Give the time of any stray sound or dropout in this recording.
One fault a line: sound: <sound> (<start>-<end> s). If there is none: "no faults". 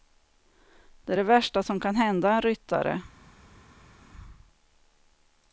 no faults